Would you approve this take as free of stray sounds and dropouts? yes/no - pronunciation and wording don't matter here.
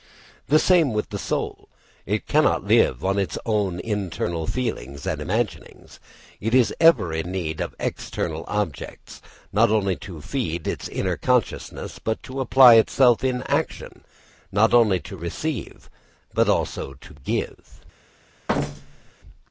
no